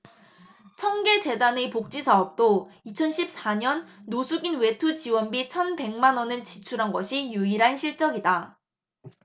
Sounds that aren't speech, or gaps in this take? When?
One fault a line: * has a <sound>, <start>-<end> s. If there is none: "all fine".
all fine